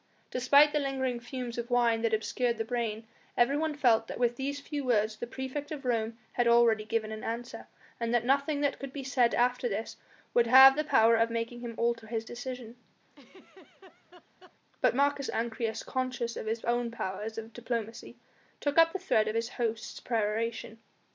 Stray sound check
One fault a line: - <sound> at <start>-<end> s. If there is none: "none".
- laugh at 13.1-14.6 s